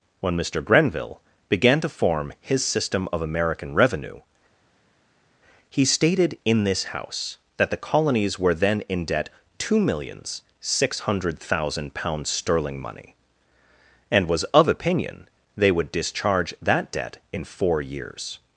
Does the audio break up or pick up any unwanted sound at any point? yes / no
no